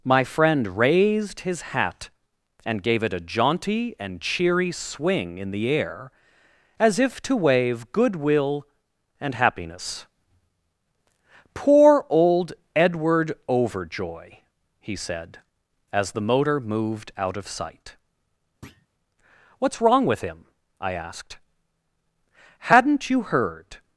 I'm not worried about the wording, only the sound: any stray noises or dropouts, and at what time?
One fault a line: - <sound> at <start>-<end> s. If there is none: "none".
- thud at 18.6-18.9 s